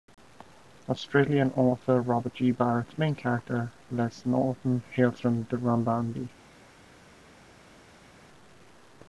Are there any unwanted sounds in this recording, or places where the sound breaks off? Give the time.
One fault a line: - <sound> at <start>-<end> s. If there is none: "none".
none